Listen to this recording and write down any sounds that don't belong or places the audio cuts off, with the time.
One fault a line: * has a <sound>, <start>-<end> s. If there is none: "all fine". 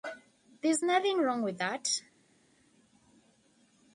all fine